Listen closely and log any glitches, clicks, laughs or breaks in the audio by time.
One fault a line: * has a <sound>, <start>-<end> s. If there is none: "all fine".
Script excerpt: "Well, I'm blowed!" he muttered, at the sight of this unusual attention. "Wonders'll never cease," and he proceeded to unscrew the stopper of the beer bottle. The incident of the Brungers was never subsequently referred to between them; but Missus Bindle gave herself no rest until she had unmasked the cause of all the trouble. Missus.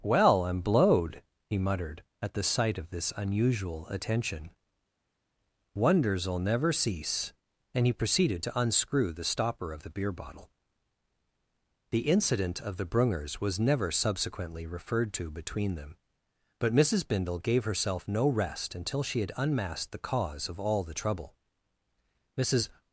all fine